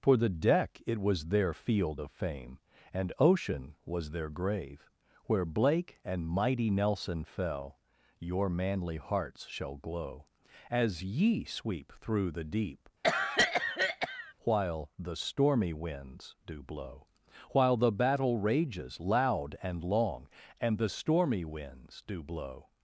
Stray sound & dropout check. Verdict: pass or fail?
fail